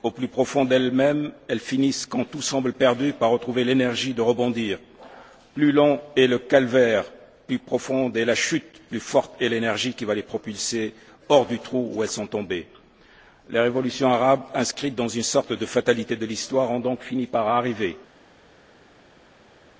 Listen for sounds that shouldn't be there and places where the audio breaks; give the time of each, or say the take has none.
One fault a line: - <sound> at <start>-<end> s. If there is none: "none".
none